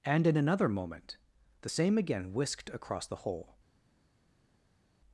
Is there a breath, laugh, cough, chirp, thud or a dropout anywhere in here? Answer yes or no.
no